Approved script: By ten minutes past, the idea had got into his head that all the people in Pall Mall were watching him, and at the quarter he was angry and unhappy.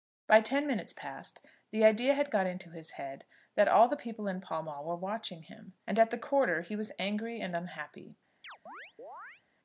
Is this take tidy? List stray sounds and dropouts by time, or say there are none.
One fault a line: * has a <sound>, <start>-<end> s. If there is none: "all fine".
* has a chirp, 8.4-9.4 s